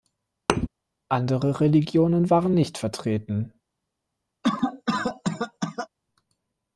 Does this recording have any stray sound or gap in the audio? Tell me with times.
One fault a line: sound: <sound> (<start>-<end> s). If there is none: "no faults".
sound: thud (0.5-0.7 s)
sound: cough (4.4-5.9 s)